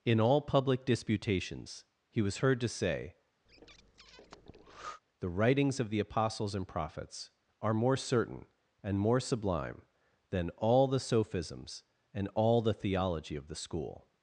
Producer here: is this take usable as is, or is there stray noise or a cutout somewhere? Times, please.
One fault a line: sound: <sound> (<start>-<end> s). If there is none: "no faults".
sound: breath (3.5-5.0 s)